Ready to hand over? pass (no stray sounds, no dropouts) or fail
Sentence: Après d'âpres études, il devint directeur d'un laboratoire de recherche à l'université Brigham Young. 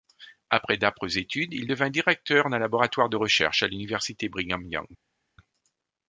pass